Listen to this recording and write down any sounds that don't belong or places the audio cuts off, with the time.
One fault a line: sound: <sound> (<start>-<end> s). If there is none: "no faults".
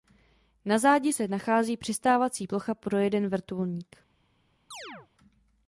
sound: chirp (4.7-5.1 s)